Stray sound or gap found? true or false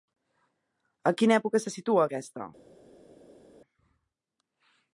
false